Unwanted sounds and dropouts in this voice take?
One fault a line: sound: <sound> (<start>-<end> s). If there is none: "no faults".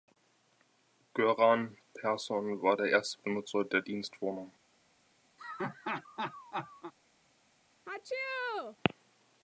sound: laugh (5.4-6.9 s)
sound: sneeze (7.9-8.8 s)